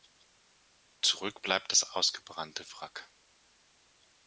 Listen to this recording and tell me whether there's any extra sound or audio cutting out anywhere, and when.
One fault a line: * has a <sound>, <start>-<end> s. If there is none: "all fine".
all fine